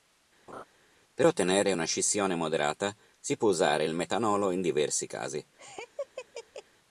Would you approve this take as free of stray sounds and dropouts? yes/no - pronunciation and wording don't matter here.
no